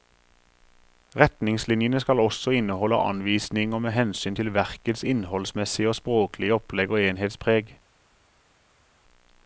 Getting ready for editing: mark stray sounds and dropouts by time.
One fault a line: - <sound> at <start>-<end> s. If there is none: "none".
none